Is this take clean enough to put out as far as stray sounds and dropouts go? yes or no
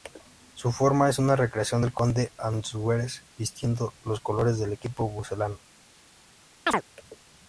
no